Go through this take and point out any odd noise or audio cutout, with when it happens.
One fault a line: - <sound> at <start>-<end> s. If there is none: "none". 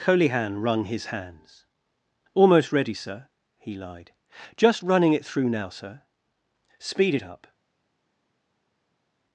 none